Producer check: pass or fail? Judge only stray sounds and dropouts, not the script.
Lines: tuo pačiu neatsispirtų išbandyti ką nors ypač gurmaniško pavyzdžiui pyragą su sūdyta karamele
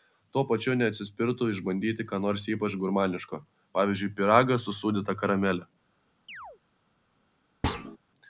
fail